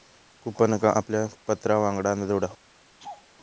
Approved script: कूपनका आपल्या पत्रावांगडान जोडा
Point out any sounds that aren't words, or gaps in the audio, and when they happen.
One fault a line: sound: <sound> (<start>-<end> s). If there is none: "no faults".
sound: laugh (3.0-3.3 s)